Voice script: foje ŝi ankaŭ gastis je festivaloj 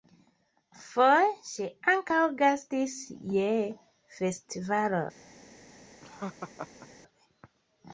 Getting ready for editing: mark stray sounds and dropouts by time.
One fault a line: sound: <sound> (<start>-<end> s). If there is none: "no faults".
sound: laugh (6.0-6.9 s)